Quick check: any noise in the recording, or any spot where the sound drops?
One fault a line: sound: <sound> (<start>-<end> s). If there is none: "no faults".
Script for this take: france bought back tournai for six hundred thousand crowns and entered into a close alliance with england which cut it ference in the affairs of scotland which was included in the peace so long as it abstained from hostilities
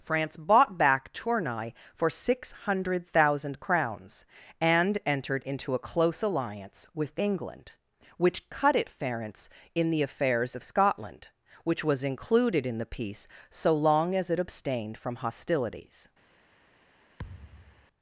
sound: thud (17.2-17.9 s)